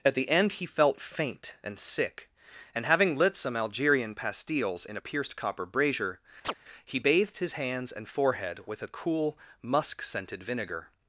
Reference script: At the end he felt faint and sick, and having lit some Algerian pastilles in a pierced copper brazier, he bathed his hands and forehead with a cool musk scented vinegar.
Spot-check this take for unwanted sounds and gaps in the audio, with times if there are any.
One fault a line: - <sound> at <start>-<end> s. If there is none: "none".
- chirp at 6.4-6.5 s